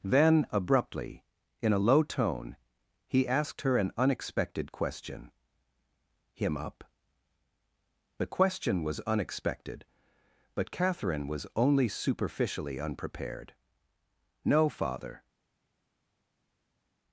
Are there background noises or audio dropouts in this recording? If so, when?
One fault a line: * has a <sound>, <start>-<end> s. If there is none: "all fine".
all fine